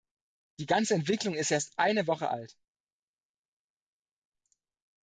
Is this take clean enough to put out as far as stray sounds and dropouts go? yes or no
yes